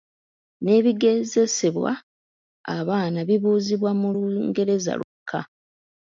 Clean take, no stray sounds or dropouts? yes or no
no